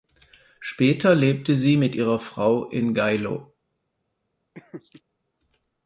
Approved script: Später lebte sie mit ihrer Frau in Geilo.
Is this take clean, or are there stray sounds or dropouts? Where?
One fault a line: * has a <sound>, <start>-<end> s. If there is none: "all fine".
* has a laugh, 4.5-5.0 s